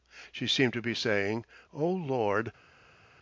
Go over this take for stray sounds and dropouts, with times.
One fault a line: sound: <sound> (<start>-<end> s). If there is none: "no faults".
no faults